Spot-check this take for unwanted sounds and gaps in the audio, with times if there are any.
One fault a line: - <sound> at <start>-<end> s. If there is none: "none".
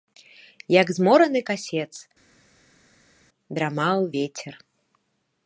none